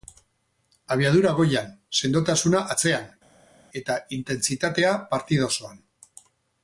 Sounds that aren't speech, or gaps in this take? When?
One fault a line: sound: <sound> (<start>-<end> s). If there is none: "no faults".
no faults